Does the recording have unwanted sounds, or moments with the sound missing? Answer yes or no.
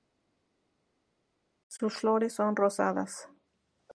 no